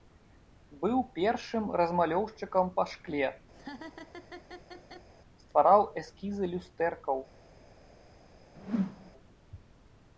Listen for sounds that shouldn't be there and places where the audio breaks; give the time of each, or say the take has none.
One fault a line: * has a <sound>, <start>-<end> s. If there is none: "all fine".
* has a laugh, 3.5-5.1 s
* has a whoosh, 8.6-9.1 s